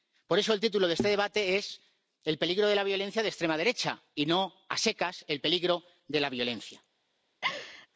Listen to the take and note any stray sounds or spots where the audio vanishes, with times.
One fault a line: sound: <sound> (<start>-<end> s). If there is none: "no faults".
sound: laugh (7.4-7.9 s)